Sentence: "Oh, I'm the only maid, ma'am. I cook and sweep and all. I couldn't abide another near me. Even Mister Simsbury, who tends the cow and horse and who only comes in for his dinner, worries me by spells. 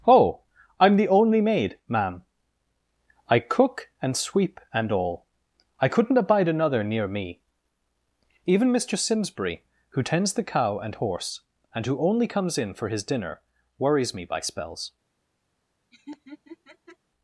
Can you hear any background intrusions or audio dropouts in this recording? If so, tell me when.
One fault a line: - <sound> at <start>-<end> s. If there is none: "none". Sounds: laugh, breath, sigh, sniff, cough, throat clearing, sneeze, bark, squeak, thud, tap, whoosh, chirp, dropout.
- laugh at 15.9-17.0 s